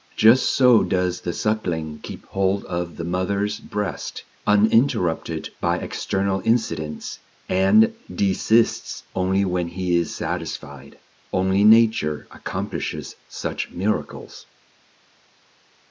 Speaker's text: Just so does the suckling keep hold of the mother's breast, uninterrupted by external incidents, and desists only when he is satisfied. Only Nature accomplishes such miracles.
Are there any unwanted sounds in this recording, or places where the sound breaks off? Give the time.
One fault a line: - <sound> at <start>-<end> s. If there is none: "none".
none